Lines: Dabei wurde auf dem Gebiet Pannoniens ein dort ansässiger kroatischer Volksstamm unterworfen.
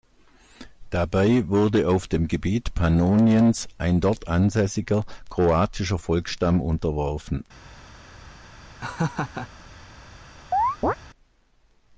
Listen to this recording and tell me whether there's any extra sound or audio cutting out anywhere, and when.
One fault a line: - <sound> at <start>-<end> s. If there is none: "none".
- laugh at 8.8-9.5 s
- chirp at 10.5-11.0 s